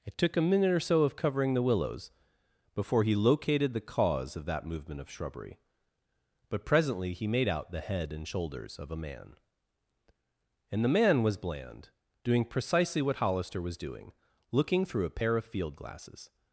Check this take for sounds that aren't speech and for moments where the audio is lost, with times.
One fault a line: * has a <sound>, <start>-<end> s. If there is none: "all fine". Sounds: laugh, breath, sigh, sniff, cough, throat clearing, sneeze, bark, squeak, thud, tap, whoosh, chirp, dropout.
all fine